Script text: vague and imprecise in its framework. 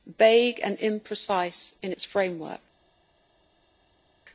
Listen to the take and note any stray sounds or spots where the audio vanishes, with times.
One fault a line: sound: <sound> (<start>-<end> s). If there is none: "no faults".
no faults